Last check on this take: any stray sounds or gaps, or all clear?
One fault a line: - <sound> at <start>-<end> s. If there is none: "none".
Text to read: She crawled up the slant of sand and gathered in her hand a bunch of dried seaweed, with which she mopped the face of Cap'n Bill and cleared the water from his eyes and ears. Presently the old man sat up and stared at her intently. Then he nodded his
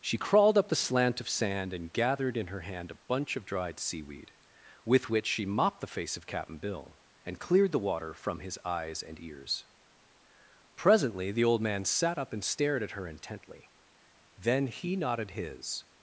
none